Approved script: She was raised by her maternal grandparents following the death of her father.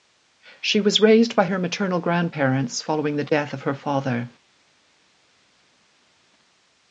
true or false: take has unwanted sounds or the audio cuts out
false